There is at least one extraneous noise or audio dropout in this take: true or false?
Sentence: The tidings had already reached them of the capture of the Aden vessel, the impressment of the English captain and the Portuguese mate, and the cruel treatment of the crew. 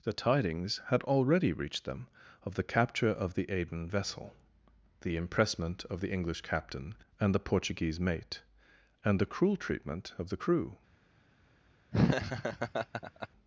true